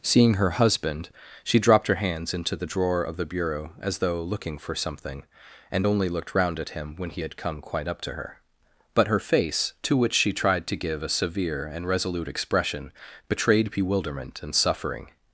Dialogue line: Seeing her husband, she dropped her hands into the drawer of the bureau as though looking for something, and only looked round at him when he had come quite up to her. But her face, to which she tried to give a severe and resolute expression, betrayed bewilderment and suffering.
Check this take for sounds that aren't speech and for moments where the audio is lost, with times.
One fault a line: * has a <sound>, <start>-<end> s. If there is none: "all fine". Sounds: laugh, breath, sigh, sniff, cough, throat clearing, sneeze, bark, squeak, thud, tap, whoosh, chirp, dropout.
all fine